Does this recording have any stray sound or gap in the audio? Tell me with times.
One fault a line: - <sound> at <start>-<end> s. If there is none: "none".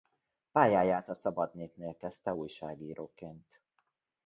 none